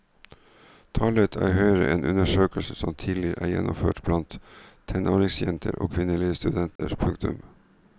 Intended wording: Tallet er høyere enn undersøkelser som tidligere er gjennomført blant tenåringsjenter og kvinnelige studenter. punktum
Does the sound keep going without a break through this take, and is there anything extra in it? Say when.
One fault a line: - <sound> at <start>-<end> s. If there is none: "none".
- dropout at 6.8-6.8 s